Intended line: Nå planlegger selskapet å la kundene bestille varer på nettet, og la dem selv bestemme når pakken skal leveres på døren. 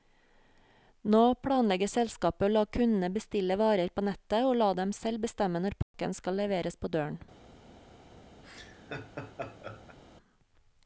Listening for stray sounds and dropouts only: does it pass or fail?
fail